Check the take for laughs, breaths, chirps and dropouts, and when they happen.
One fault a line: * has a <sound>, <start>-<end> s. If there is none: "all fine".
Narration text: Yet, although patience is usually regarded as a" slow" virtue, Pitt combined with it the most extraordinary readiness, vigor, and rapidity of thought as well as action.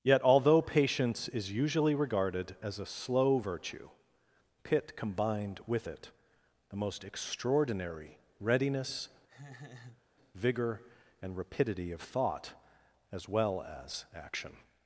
* has a laugh, 9.3-10.0 s